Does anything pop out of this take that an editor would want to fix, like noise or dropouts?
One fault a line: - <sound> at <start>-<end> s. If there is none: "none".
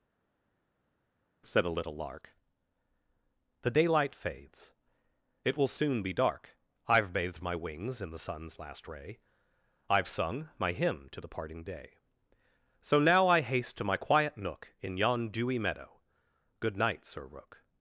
none